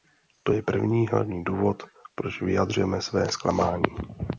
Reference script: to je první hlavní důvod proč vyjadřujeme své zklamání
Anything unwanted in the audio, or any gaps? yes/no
no